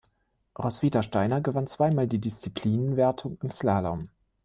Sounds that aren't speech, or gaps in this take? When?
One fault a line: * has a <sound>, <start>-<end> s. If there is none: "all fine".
all fine